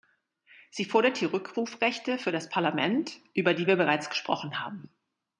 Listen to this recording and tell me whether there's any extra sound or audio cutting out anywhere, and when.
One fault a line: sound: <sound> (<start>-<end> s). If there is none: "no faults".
no faults